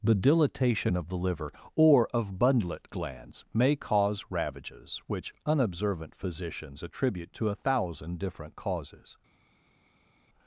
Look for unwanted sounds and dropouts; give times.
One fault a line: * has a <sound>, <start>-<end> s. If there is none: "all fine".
all fine